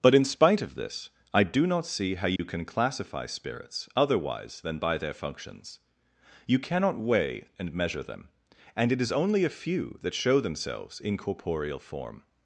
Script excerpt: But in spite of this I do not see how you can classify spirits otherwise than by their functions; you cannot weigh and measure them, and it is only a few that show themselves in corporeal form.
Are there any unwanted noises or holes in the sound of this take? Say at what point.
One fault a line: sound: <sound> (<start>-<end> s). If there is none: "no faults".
sound: dropout (2.4-2.4 s)